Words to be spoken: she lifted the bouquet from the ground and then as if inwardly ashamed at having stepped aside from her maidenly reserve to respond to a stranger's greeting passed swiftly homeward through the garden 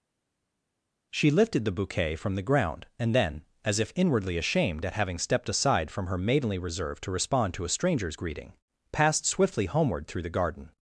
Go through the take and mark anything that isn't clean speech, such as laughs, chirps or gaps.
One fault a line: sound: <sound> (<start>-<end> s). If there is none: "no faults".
no faults